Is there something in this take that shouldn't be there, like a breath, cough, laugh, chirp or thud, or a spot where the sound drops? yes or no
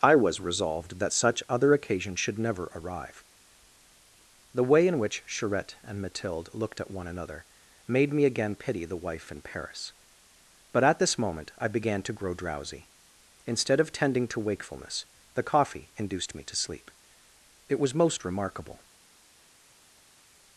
no